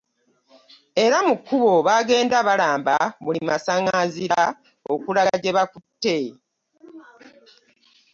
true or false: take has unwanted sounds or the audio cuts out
false